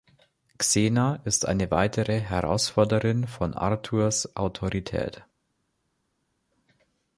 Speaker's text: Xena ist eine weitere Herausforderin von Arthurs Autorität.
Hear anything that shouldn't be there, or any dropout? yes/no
no